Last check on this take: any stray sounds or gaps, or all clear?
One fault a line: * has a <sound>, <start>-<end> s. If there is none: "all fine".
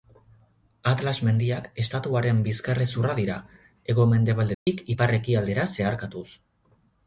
* has a dropout, 4.5-4.7 s